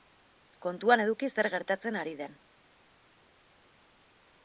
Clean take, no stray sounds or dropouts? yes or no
yes